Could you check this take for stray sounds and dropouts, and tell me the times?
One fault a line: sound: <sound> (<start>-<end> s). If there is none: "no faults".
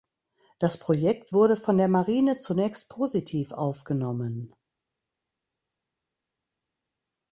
no faults